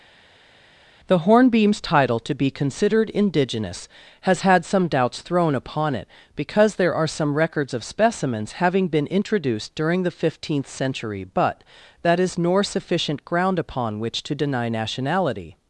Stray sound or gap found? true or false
false